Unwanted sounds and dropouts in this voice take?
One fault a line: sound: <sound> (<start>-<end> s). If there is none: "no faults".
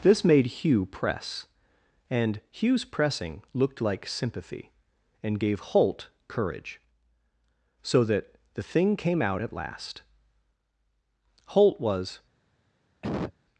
sound: cough (13.0-13.4 s)